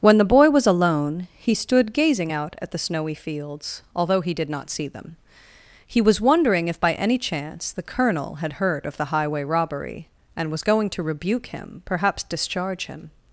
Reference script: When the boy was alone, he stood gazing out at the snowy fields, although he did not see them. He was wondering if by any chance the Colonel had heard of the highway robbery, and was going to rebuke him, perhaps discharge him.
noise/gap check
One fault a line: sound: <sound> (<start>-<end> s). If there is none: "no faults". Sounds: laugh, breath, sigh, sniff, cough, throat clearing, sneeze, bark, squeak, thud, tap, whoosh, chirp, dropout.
no faults